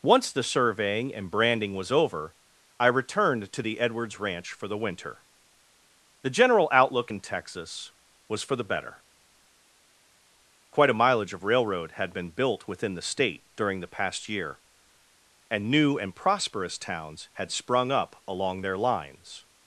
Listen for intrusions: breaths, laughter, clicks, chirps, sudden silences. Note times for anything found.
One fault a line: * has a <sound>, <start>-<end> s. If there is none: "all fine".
all fine